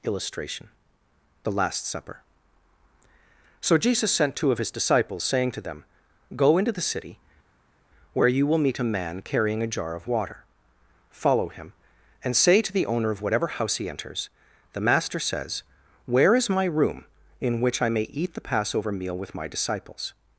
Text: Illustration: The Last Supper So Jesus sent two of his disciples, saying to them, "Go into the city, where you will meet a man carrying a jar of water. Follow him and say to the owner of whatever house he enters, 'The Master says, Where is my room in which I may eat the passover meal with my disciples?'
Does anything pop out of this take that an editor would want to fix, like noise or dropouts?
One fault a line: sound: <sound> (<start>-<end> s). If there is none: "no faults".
no faults